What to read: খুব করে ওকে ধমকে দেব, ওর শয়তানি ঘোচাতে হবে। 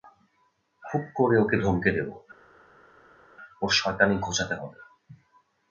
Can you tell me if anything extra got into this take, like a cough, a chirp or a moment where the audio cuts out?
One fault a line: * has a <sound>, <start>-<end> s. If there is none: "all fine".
all fine